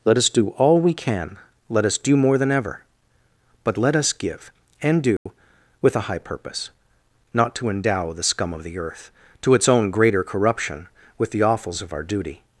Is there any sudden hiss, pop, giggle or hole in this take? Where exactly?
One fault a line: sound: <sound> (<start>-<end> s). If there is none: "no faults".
sound: dropout (5.2-5.3 s)